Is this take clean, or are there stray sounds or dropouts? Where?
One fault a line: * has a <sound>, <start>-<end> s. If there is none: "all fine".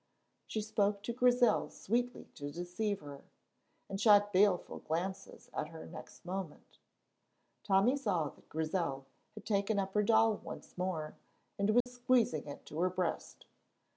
* has a dropout, 11.8-11.9 s